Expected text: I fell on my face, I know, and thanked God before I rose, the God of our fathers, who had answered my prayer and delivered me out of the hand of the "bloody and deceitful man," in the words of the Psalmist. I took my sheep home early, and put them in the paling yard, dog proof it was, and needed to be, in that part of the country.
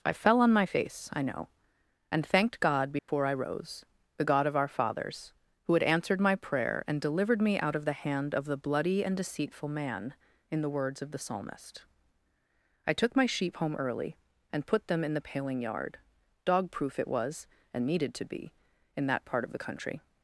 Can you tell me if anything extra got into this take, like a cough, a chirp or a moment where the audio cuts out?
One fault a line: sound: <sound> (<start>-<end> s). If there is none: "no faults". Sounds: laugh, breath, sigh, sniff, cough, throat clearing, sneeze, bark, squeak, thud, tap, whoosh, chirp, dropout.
sound: dropout (3.0-3.1 s)